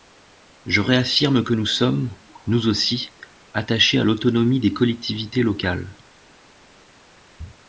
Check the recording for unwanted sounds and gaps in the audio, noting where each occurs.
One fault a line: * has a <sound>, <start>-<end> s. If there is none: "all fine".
all fine